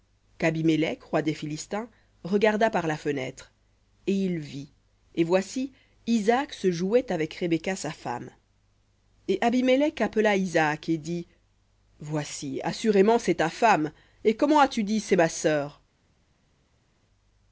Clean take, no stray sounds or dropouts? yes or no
yes